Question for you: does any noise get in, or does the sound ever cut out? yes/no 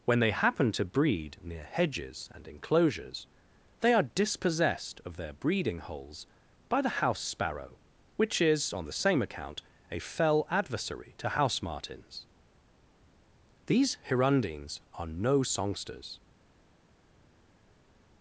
no